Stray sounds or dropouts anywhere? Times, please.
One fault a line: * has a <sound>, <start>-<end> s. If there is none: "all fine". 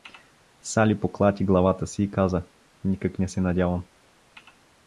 all fine